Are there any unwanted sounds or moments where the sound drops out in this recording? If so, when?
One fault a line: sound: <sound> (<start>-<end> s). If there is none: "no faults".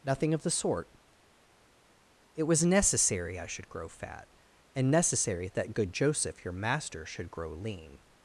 no faults